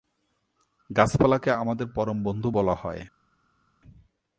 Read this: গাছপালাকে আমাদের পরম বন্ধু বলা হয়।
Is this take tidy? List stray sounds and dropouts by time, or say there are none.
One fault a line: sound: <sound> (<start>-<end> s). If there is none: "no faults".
no faults